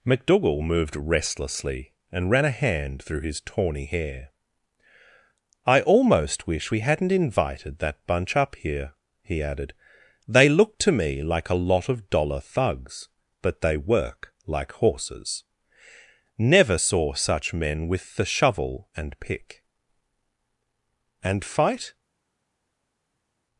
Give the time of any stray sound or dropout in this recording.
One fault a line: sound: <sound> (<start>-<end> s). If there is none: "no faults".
no faults